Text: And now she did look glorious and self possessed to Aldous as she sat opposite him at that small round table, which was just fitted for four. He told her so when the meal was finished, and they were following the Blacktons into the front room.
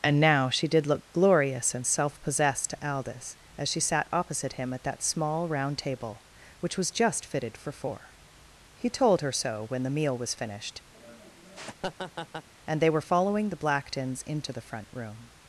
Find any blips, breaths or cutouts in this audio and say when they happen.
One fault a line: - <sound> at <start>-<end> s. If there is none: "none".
- laugh at 10.9-12.5 s